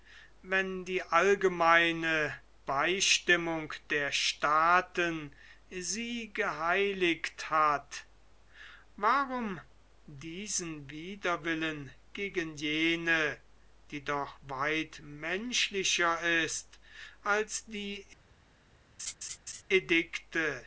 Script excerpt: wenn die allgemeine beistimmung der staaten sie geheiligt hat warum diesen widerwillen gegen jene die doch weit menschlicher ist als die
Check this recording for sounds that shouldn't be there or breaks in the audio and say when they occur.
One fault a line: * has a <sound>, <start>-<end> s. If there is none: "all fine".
* has a laugh, 19.0-19.6 s